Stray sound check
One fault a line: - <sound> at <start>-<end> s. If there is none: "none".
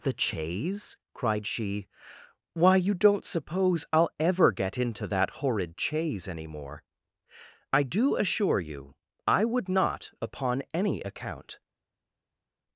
none